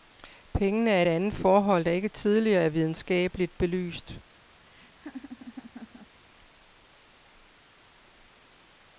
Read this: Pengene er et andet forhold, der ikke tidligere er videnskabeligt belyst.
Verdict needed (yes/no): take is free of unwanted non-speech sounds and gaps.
no